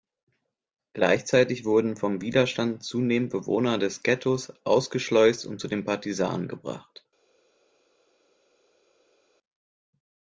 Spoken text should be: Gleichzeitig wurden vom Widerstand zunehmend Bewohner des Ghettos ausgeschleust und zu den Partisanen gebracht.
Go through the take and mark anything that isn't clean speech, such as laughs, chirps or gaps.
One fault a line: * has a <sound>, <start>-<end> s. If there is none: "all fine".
all fine